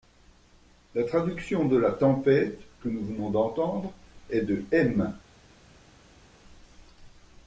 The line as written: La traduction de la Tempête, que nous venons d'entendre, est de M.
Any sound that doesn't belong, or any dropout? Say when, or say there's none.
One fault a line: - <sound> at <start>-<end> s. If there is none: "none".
none